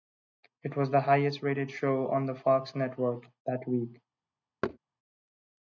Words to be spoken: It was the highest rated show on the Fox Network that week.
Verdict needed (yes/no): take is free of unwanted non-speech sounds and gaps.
no